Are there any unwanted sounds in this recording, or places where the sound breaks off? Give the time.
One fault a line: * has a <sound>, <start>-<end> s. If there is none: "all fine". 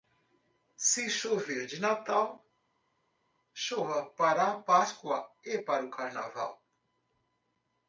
all fine